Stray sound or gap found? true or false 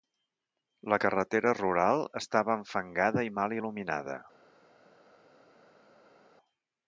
false